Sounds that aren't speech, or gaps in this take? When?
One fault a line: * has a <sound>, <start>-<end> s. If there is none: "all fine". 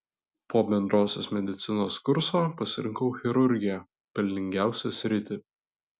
all fine